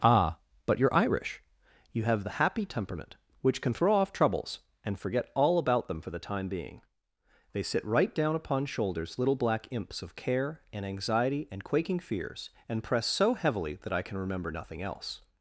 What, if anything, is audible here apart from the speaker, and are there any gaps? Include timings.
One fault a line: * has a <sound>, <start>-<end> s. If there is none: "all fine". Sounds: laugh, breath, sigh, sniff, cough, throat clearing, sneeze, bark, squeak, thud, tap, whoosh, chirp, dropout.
all fine